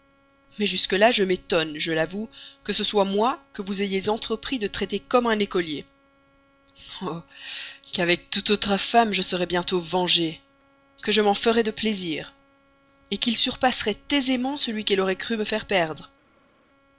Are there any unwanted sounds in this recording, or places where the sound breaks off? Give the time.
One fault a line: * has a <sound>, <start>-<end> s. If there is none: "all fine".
all fine